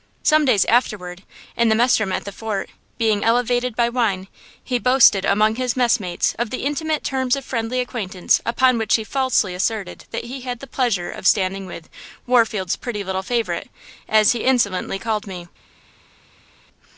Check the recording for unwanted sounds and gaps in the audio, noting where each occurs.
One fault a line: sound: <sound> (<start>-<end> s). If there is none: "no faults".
no faults